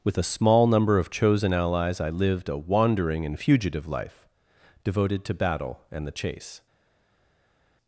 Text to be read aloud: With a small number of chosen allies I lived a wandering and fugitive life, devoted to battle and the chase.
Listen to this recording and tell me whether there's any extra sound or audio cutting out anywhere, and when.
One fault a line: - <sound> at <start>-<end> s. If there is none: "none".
none